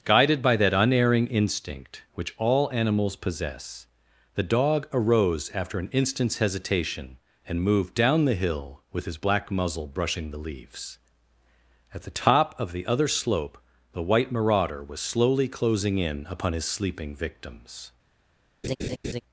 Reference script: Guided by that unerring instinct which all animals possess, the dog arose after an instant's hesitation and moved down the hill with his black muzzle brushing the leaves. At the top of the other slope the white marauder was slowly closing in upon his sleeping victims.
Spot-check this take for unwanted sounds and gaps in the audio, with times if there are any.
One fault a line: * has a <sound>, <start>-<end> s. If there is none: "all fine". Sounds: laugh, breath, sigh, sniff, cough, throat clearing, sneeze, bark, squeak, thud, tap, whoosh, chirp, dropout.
* has a laugh, 18.6-19.2 s